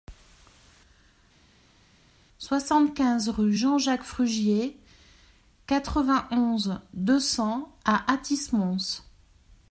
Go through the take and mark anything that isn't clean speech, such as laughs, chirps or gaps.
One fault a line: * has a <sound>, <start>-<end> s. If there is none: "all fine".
all fine